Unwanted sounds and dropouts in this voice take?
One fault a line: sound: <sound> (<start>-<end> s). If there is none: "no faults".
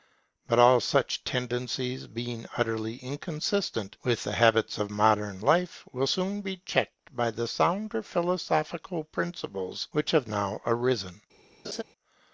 sound: laugh (11.6-11.8 s)